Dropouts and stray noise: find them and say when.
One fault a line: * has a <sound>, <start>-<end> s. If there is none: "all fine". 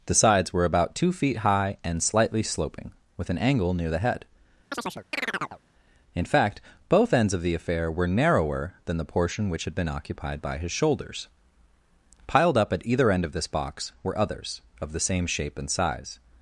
* has a chirp, 4.7-5.6 s